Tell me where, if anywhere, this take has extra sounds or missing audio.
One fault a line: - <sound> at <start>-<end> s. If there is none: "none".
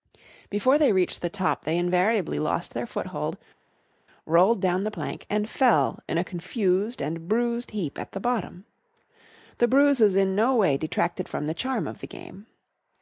none